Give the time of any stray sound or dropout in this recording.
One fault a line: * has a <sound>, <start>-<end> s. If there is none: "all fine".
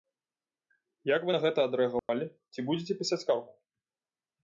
* has a dropout, 2.0-2.1 s